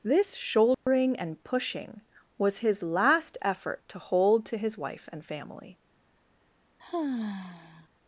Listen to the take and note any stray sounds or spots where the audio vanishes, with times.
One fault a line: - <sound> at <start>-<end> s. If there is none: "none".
- dropout at 0.7-0.9 s
- sigh at 6.8-7.9 s